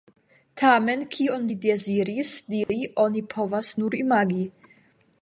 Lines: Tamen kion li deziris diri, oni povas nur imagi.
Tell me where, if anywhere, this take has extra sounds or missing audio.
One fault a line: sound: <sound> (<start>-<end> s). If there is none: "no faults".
sound: dropout (2.6-2.7 s)